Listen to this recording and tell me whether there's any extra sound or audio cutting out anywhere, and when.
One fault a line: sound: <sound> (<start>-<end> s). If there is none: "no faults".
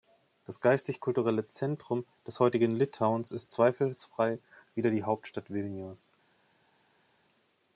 no faults